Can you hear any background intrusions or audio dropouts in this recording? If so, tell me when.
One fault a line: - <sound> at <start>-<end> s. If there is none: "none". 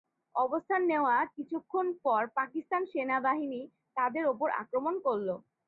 none